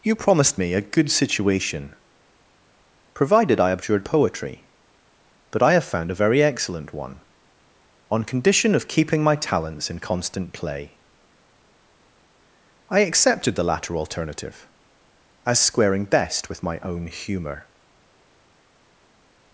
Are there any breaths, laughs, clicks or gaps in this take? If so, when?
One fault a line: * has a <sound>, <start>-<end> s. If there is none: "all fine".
all fine